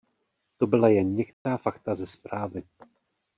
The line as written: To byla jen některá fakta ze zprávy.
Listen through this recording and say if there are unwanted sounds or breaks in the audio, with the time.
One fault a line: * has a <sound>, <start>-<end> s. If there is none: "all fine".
* has a dropout, 1.3-1.5 s